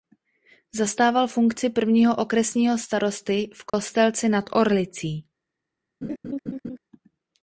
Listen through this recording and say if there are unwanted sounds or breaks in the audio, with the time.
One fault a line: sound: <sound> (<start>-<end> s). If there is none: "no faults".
sound: dropout (3.7-3.7 s)
sound: laugh (6.0-6.8 s)